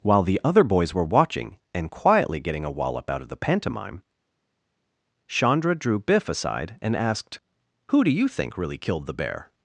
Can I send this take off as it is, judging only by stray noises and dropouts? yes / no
yes